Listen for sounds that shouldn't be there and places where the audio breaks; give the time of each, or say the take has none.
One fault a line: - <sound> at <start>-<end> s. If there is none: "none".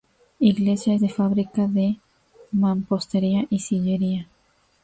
none